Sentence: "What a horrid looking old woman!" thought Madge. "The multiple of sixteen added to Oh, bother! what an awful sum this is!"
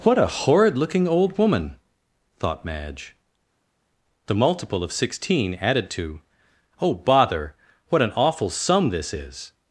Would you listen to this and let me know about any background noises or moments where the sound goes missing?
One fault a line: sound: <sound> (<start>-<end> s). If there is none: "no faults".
no faults